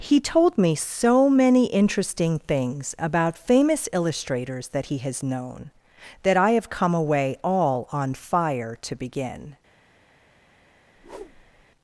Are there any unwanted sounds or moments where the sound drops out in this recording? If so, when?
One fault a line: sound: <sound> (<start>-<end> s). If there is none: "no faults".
sound: whoosh (10.9-11.7 s)